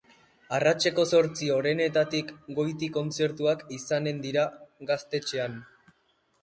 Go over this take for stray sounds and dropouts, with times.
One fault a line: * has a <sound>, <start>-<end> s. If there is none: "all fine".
all fine